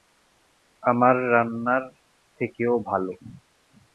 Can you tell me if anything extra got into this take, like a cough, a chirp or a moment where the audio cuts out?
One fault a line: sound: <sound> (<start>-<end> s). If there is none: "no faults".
no faults